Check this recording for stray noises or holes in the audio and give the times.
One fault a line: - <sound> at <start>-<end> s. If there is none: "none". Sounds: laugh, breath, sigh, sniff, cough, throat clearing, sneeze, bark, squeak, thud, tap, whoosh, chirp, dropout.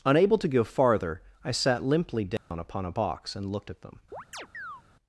- dropout at 2.4-2.5 s
- chirp at 4.1-4.8 s